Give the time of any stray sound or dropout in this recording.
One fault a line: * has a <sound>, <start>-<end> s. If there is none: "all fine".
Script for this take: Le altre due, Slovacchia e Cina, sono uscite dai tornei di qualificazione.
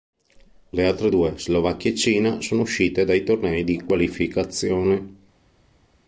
all fine